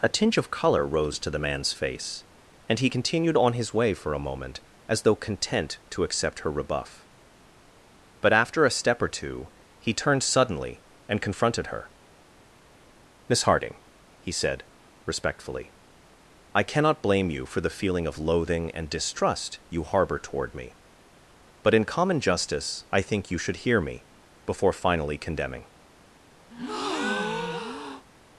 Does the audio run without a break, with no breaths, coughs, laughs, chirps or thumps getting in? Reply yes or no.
no